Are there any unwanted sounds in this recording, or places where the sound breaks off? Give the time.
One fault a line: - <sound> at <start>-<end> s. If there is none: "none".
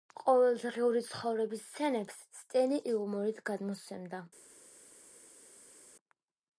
none